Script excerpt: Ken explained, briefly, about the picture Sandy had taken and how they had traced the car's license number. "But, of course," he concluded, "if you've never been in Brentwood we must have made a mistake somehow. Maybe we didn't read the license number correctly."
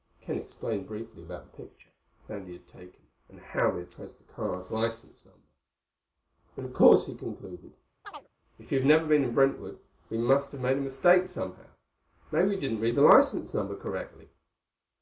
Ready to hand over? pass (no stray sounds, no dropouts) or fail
fail